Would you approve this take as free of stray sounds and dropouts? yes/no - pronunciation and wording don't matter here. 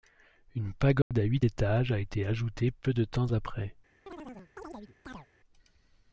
no